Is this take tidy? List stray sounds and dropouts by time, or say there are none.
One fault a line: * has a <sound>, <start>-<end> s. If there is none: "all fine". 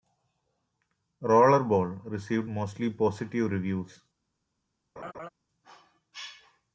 * has a laugh, 5.0-5.3 s